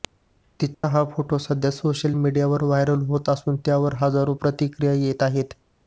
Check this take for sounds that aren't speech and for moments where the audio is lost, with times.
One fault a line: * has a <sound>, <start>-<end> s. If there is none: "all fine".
* has a dropout, 0.7-0.8 s